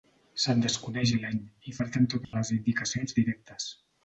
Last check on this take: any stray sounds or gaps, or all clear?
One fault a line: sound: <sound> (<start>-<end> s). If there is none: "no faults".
sound: dropout (2.2-2.3 s)